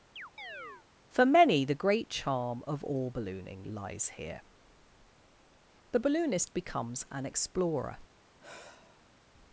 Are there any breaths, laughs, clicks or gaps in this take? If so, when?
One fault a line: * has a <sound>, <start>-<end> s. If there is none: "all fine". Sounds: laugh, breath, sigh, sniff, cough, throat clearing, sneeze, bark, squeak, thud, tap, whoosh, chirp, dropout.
* has a chirp, 0.2-0.9 s
* has a sigh, 8.4-9.3 s